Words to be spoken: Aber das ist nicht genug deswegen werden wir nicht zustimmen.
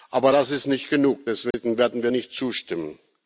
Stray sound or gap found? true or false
true